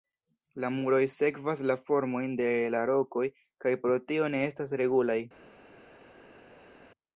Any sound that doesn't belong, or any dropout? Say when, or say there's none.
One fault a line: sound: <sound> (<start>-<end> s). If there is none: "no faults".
no faults